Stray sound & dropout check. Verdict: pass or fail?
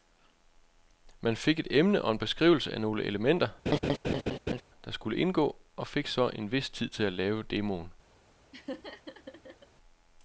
fail